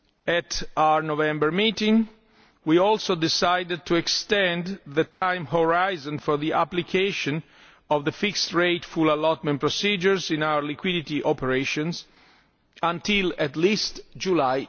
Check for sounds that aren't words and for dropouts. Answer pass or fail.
fail